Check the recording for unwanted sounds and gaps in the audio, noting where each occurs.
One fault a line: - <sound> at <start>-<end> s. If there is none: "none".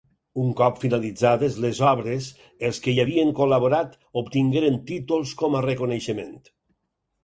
none